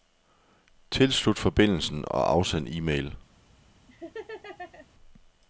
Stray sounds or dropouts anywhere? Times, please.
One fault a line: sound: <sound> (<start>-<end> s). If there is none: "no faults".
sound: laugh (3.9-4.9 s)